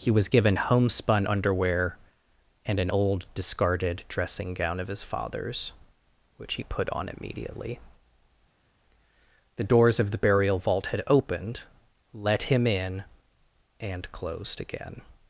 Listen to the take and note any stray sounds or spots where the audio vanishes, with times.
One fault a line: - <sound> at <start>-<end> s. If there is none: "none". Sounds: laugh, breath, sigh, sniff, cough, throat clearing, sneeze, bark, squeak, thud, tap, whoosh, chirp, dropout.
none